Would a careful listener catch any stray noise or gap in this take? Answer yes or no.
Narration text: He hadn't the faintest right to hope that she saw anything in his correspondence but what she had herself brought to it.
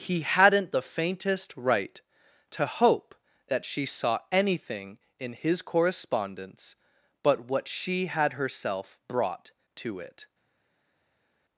no